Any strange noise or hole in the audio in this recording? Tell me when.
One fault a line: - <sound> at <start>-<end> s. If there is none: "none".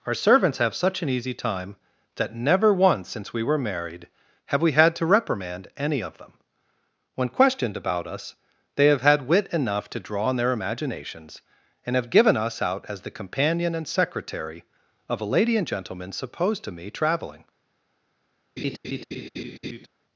- laugh at 18.6-19.9 s